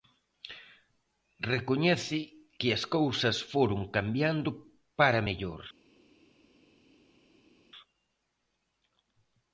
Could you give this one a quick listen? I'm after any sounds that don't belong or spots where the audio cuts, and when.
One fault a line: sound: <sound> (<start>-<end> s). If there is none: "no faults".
no faults